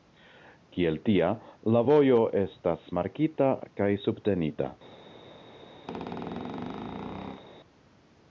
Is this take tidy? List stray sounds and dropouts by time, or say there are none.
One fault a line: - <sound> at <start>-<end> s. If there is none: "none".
- squeak at 5.9-7.4 s